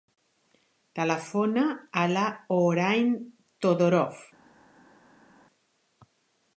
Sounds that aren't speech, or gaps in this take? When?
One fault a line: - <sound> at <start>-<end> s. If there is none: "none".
none